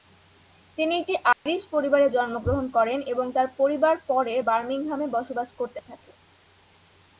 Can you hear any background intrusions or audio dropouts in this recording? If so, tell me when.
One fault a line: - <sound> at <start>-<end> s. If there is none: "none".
- dropout at 1.3-1.5 s